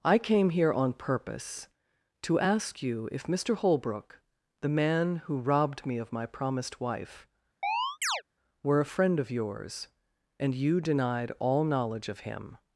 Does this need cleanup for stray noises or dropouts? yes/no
yes